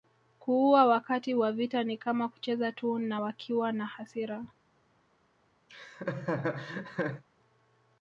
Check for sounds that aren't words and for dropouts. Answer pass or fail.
fail